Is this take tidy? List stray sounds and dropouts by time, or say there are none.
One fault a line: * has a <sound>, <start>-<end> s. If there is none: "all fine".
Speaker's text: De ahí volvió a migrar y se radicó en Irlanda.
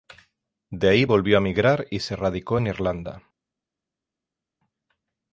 all fine